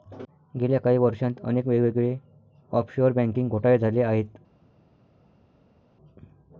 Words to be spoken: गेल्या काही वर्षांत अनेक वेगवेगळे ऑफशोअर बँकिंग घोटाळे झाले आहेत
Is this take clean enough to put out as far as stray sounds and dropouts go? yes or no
yes